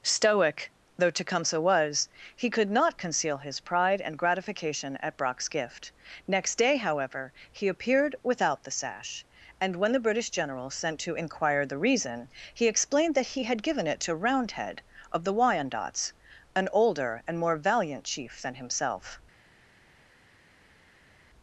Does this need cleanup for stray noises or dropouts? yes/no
no